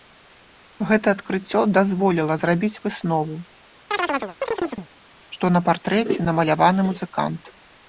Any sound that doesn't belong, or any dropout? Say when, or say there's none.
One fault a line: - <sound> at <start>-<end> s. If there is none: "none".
- chirp at 3.9-4.9 s